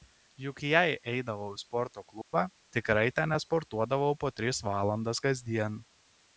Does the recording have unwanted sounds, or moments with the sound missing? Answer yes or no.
yes